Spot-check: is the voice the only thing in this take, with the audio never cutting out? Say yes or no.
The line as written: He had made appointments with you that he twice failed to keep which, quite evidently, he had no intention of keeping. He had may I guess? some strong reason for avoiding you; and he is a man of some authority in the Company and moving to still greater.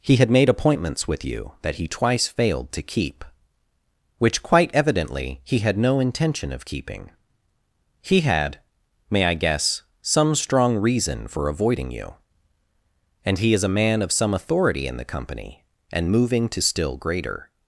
yes